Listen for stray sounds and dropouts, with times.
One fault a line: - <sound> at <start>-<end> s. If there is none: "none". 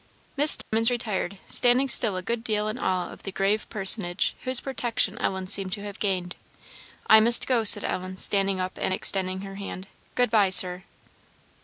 - dropout at 0.6-0.7 s